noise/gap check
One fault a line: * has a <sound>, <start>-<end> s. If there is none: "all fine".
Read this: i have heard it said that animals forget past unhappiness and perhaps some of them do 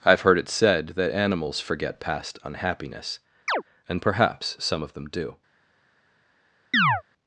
* has a chirp, 3.5-3.6 s
* has a chirp, 6.7-7.0 s